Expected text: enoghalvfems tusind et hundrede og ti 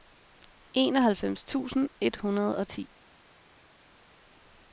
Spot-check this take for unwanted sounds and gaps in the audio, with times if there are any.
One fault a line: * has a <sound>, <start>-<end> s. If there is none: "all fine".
all fine